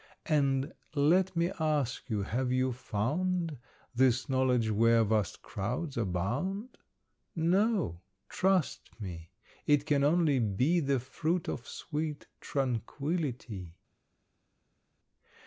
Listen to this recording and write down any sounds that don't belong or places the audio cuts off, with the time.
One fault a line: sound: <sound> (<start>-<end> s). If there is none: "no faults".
no faults